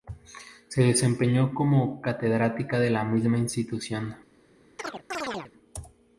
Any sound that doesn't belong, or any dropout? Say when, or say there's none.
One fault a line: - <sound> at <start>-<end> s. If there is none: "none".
- chirp at 4.8-5.5 s